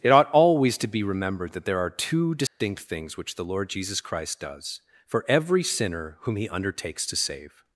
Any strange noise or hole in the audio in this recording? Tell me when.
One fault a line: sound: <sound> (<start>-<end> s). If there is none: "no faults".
sound: dropout (2.5-2.6 s)